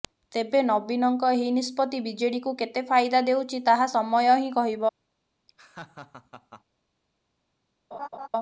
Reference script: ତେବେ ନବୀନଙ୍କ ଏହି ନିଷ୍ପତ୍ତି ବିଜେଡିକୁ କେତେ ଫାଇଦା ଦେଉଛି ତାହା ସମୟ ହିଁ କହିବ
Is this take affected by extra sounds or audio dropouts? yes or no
yes